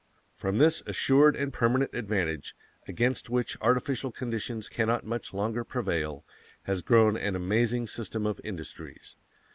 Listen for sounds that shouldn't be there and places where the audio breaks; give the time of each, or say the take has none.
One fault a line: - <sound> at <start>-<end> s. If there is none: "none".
none